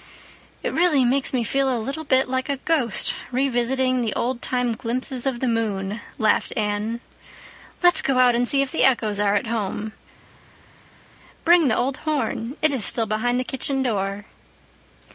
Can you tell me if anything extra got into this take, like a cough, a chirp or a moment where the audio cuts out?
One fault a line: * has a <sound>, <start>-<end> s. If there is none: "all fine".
all fine